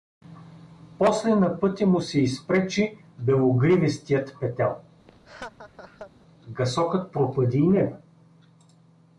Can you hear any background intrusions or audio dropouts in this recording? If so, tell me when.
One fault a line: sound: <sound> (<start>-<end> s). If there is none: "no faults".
sound: laugh (5.1-6.1 s)